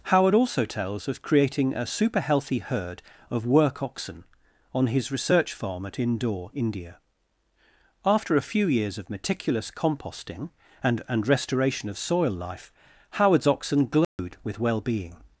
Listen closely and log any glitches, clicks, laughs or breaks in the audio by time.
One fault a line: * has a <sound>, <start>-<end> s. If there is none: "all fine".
* has a dropout, 14.0-14.2 s